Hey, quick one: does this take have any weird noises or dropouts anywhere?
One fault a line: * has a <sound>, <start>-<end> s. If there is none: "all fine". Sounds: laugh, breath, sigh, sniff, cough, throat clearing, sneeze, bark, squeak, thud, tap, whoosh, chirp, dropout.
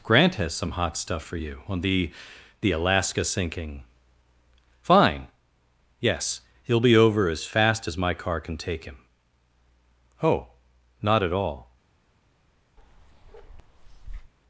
* has a bark, 12.8-14.3 s